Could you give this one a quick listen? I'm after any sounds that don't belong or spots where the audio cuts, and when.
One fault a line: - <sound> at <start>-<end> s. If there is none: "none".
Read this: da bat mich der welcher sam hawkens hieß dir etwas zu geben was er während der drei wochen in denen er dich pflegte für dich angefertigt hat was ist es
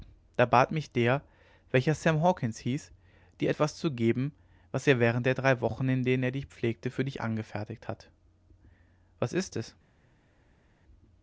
none